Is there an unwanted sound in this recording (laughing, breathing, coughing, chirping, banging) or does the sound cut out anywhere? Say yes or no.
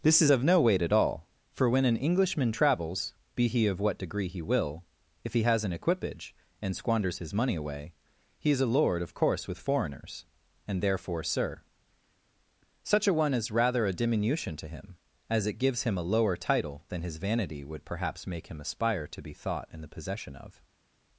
no